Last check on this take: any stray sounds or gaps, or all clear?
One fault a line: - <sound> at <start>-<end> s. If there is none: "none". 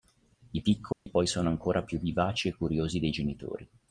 - dropout at 0.9-1.1 s